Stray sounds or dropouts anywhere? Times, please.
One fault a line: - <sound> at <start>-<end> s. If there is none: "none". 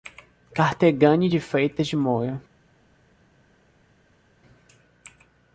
none